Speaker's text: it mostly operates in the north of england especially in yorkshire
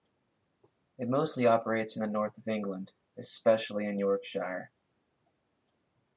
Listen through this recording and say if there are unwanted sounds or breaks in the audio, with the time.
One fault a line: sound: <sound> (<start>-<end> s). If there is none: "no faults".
no faults